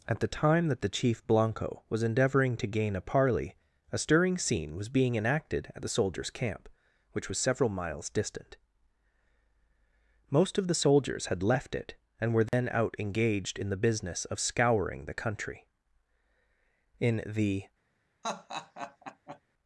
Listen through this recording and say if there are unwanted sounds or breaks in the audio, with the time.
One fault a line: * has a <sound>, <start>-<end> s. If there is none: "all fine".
* has a dropout, 12.5-12.5 s
* has a laugh, 18.2-19.4 s